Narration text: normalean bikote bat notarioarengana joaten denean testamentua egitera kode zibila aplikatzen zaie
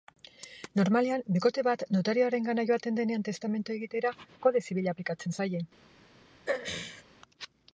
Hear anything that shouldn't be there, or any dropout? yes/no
yes